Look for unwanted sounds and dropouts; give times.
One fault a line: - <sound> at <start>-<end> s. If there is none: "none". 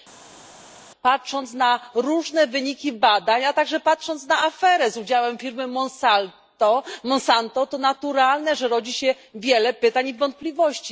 none